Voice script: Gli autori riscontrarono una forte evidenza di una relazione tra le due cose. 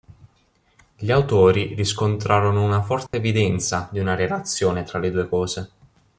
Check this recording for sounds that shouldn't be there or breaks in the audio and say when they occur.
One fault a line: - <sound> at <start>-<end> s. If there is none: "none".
- dropout at 3.1-3.1 s